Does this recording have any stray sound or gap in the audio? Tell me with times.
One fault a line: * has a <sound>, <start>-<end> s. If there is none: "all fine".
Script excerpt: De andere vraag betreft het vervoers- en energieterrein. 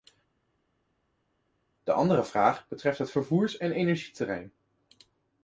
all fine